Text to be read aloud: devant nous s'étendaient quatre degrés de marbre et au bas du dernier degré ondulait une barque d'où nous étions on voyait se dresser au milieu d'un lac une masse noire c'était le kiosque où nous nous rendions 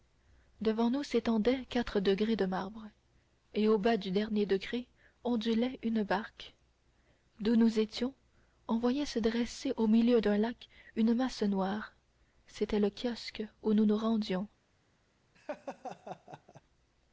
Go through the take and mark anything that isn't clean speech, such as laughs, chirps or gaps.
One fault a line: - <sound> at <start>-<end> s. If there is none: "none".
- laugh at 15.3-16.6 s